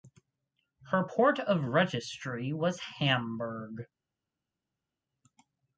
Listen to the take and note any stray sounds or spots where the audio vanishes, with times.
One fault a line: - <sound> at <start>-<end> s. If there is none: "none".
none